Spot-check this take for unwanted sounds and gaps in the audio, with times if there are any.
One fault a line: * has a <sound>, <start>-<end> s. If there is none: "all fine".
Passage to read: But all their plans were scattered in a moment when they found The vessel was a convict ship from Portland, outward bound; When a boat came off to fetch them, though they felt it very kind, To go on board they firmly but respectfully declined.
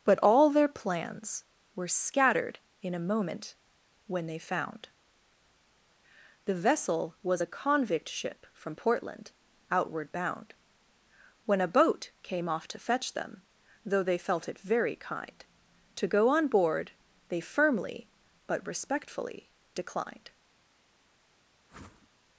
* has a whoosh, 21.7-22.1 s